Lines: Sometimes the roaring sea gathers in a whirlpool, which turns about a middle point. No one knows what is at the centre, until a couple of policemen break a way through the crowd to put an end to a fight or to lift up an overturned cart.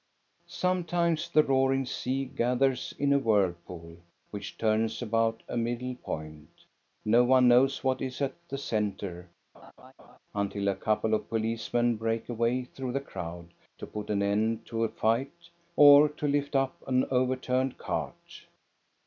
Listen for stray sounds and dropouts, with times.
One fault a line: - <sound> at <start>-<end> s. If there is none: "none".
- laugh at 9.5-10.2 s